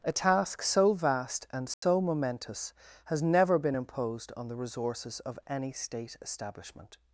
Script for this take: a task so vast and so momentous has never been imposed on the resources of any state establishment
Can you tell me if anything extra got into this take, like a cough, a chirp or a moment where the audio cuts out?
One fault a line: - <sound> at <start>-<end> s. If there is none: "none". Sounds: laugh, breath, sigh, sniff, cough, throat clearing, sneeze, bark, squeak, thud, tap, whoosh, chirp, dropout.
- dropout at 1.7-1.8 s